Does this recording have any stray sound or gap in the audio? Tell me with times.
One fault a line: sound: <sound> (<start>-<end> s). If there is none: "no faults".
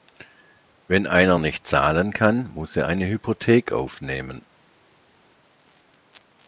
no faults